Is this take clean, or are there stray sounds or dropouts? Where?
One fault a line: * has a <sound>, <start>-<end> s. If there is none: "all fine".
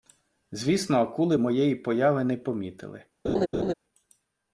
* has a laugh, 3.2-3.7 s